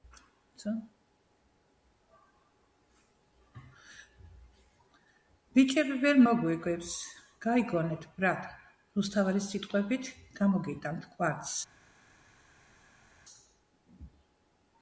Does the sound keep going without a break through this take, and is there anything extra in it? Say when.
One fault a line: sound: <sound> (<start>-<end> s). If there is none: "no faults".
no faults